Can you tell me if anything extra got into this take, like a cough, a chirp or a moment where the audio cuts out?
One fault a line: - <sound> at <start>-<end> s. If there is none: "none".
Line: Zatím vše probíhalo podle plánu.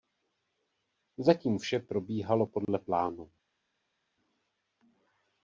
none